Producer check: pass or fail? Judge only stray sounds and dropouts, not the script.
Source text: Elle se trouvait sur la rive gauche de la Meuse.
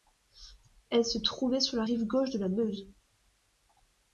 pass